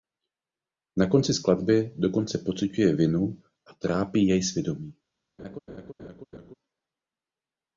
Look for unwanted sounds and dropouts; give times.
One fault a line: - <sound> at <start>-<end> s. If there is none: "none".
- laugh at 5.4-6.5 s